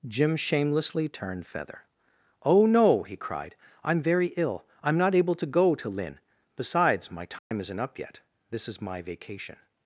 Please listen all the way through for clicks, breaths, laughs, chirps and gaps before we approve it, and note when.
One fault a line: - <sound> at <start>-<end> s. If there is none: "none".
- dropout at 7.4-7.5 s